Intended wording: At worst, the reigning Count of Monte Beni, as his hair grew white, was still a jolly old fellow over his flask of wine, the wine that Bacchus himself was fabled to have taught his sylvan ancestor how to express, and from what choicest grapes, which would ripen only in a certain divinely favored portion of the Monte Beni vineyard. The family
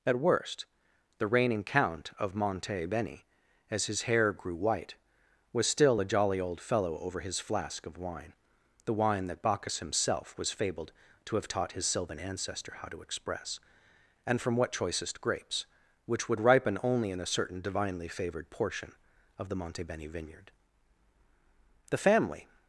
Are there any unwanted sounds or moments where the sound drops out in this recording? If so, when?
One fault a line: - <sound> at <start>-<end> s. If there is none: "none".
none